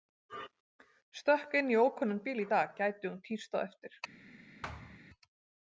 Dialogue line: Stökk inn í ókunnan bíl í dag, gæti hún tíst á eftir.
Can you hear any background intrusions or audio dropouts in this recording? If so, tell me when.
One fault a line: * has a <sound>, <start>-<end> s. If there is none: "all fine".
* has a thud, 4.6-5.0 s